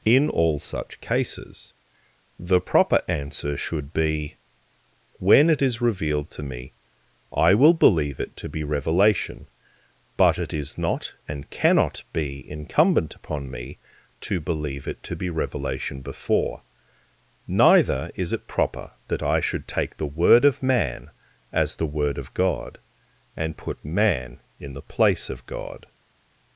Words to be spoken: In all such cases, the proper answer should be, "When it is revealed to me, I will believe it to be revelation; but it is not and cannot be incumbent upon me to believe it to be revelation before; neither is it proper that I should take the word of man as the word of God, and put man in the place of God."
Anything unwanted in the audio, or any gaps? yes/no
no